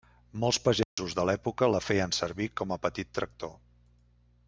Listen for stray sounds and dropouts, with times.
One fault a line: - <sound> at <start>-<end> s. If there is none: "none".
- dropout at 0.8-1.0 s